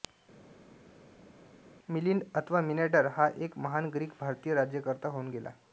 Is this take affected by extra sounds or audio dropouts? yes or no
no